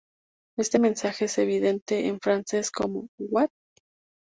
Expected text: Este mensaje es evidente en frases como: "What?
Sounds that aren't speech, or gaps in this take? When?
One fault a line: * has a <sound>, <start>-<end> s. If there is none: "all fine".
all fine